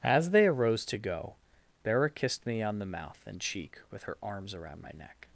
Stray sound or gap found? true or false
false